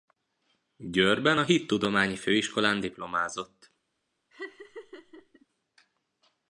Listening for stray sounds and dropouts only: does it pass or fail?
fail